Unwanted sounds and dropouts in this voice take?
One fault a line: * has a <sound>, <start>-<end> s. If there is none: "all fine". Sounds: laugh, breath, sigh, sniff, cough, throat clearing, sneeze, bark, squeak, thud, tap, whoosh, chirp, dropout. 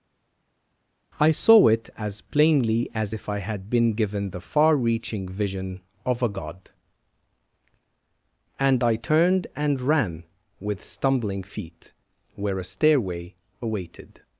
all fine